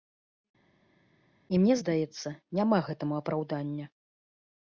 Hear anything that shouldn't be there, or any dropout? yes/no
no